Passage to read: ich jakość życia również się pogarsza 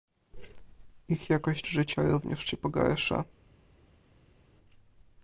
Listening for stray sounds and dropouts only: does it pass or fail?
pass